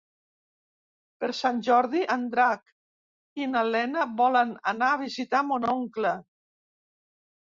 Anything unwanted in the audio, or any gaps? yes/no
no